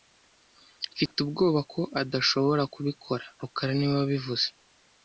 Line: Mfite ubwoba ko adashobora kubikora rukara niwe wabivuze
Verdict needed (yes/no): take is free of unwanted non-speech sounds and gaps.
no